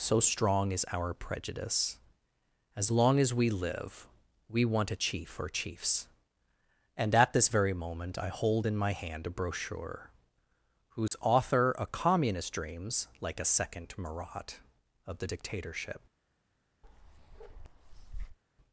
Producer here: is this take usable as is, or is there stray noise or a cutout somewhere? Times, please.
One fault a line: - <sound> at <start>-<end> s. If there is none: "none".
- dropout at 11.1-11.1 s
- bark at 16.8-18.4 s